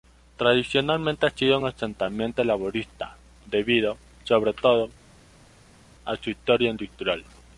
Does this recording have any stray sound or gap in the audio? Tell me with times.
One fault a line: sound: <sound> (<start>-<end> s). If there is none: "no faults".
no faults